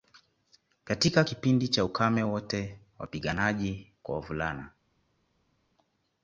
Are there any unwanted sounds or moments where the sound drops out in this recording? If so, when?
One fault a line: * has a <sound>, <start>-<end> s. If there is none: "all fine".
all fine